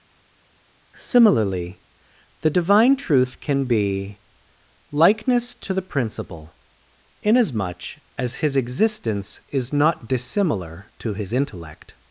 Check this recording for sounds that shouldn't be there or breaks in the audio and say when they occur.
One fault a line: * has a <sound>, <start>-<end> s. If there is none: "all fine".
all fine